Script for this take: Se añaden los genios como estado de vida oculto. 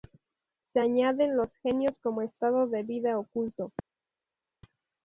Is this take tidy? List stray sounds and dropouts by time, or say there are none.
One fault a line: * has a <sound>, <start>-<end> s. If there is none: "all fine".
all fine